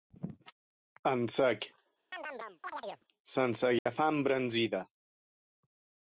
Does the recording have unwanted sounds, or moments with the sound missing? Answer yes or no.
yes